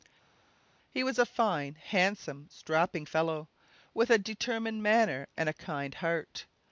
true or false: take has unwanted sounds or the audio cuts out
false